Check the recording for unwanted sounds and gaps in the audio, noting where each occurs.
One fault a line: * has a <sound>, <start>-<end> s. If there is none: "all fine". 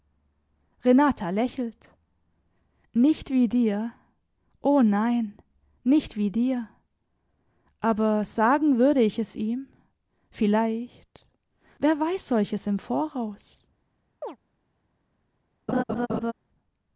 * has a chirp, 14.2-14.4 s
* has a laugh, 15.7-16.3 s